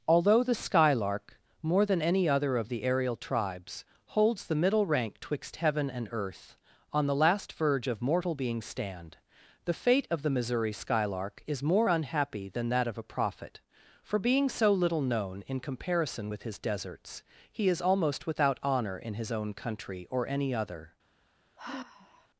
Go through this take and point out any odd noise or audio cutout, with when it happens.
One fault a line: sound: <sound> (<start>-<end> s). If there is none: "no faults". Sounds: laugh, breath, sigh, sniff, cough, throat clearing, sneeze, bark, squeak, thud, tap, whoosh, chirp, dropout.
sound: sigh (21.6-22.3 s)